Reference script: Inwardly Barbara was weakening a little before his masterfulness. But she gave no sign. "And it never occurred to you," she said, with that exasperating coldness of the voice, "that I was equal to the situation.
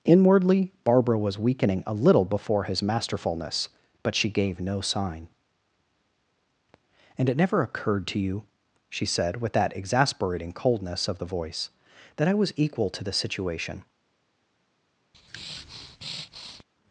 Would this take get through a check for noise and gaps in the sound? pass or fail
fail